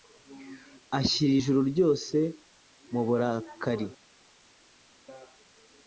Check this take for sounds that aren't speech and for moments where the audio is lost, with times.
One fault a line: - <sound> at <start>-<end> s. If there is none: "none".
none